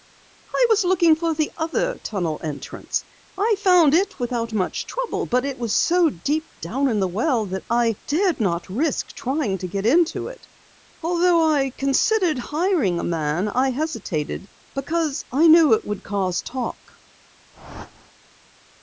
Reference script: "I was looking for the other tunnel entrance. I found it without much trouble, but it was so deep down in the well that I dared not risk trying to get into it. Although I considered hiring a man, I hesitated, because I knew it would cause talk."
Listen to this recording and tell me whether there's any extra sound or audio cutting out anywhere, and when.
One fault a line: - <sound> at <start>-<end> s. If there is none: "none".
- whoosh at 17.5-18.1 s